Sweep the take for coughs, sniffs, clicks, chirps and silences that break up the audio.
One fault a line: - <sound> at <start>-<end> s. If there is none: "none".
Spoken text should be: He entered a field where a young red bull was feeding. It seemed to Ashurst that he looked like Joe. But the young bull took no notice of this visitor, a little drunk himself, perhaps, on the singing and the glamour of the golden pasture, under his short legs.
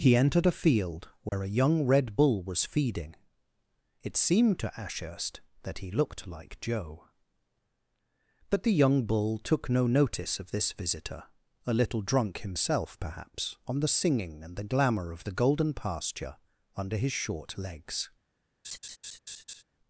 - dropout at 1.3-1.3 s
- laugh at 18.6-19.6 s